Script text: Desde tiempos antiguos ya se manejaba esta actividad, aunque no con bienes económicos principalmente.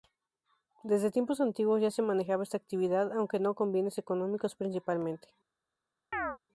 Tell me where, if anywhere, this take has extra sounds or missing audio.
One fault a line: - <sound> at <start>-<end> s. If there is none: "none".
- chirp at 6.1-6.4 s